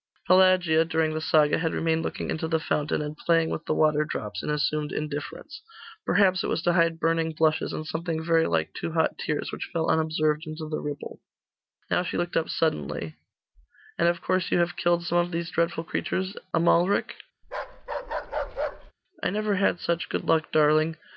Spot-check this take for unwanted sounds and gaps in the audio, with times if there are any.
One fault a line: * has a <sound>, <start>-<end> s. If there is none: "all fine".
* has a bark, 17.4-18.9 s